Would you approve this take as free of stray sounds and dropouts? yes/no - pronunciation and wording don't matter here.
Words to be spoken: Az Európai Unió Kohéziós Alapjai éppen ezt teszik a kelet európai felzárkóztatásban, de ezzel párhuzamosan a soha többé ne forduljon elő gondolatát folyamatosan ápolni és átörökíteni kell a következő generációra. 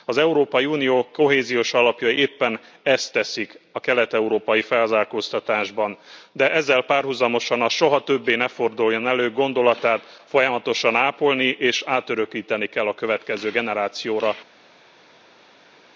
yes